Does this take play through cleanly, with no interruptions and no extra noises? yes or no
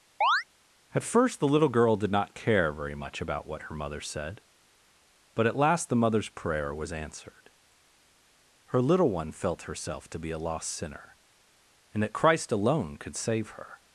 no